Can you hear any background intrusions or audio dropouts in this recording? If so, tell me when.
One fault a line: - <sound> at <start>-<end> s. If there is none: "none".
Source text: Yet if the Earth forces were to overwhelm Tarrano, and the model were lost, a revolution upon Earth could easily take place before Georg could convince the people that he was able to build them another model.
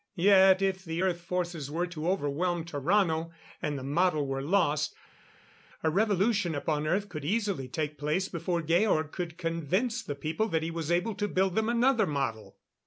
none